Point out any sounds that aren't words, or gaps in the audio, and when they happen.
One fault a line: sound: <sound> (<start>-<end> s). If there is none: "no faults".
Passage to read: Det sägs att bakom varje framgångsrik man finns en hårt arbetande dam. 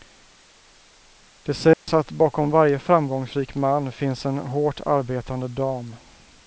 sound: dropout (1.7-1.9 s)